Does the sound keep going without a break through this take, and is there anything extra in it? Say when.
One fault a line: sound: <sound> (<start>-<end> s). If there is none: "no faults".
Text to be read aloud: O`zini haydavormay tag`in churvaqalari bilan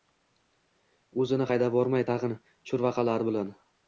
no faults